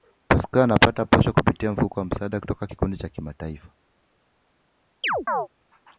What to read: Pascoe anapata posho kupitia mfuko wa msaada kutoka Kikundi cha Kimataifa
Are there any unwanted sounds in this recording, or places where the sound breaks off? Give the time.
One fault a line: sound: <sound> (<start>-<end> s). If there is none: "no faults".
sound: chirp (5.0-5.5 s)